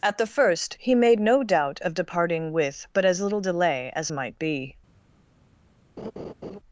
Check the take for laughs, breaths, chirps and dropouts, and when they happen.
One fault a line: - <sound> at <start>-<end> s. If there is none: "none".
- laugh at 6.0-6.6 s